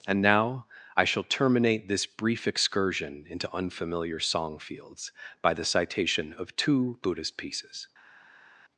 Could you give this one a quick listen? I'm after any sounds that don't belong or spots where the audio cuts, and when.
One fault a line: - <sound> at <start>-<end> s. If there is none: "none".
none